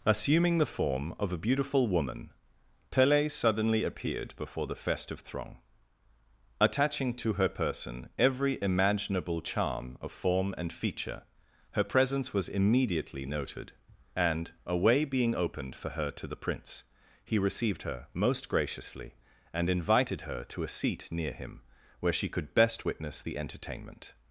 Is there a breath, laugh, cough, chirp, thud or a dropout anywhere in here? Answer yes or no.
no